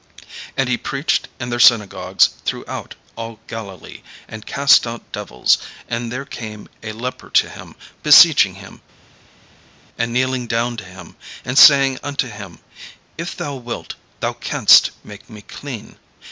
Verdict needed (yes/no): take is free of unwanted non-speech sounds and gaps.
yes